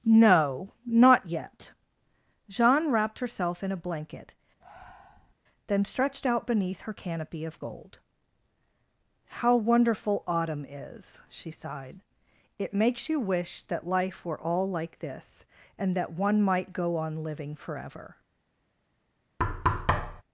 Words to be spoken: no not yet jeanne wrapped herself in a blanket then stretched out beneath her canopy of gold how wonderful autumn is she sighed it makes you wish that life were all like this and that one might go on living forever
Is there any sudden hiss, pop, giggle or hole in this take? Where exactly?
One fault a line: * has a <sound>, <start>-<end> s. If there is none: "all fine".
* has a breath, 4.6-5.3 s
* has a thud, 19.4-20.2 s